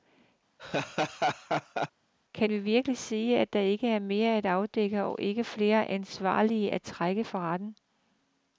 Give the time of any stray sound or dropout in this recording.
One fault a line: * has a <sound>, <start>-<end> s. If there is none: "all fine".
* has a laugh, 0.6-1.9 s